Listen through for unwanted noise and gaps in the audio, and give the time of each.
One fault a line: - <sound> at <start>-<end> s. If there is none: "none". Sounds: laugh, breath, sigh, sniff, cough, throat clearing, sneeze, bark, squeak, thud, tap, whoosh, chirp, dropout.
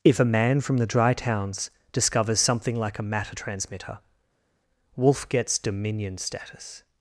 none